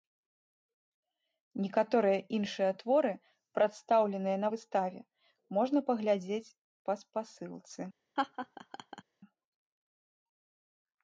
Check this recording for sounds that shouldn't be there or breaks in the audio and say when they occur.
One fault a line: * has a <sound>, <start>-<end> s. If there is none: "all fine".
* has a laugh, 8.2-9.0 s